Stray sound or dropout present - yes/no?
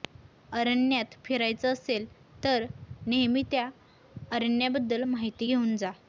no